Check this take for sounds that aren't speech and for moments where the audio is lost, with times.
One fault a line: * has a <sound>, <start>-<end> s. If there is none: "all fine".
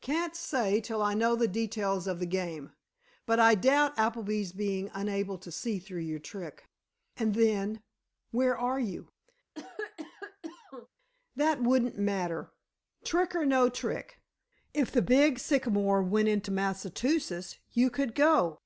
* has a cough, 9.5-10.9 s